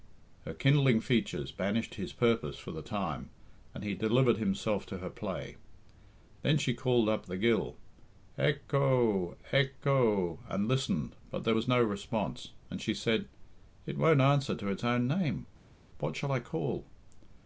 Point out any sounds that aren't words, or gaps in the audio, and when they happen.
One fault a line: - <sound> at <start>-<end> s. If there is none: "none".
none